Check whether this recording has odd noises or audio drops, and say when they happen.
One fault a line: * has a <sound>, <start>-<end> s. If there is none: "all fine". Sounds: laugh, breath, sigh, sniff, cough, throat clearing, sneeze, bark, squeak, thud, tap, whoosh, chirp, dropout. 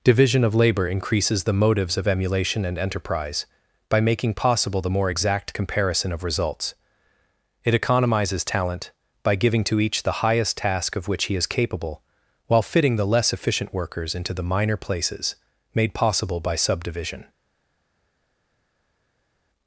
all fine